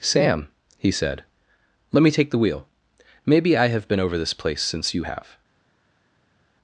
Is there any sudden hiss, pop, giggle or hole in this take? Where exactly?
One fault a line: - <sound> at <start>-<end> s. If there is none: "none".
none